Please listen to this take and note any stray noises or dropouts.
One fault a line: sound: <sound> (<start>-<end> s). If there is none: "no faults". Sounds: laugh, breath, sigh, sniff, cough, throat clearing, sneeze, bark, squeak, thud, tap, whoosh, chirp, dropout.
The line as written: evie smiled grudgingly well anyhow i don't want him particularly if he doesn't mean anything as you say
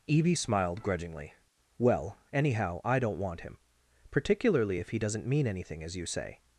no faults